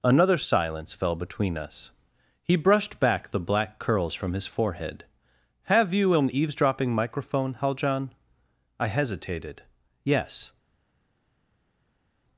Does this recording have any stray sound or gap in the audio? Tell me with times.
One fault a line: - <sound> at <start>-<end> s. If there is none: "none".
none